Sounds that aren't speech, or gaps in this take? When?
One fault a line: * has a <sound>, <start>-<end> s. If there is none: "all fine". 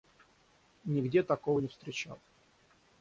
all fine